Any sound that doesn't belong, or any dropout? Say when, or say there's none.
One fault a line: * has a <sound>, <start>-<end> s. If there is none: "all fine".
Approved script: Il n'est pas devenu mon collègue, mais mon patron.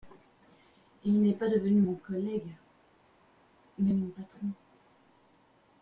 all fine